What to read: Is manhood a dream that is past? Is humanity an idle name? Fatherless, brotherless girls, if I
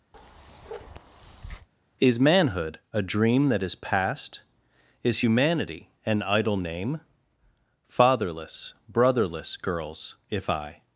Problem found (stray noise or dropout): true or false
true